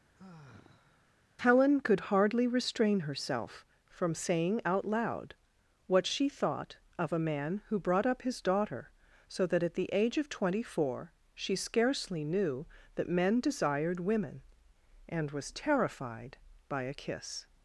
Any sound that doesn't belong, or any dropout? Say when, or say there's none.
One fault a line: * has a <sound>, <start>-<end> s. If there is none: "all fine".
* has a sigh, 0.1-1.2 s